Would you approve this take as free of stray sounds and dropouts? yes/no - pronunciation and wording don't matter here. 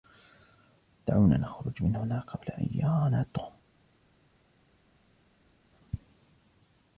yes